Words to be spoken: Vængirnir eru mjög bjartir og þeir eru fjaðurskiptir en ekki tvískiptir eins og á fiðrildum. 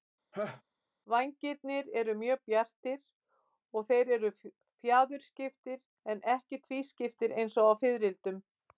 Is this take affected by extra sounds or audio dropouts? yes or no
yes